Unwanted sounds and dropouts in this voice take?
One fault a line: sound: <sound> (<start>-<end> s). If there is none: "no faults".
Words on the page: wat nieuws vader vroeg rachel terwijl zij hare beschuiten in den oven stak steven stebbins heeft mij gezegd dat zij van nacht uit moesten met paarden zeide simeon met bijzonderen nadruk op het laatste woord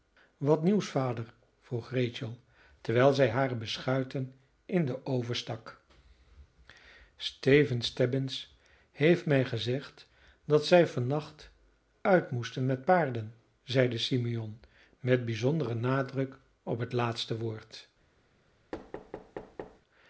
sound: thud (18.7-19.8 s)